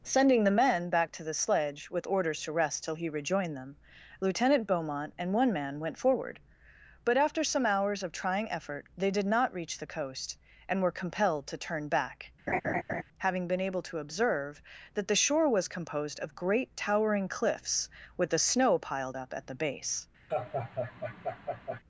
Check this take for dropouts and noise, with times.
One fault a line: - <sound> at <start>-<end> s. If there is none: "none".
- laugh at 12.5-13.0 s
- laugh at 20.3-21.8 s